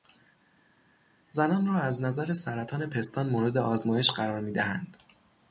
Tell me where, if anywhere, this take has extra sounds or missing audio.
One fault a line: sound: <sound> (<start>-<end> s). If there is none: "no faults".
no faults